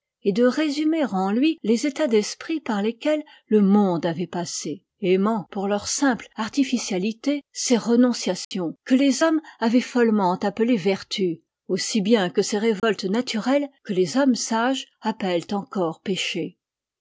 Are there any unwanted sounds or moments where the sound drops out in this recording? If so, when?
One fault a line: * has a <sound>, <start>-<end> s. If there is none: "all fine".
* has a dropout, 8.4-8.5 s
* has a dropout, 12.8-12.8 s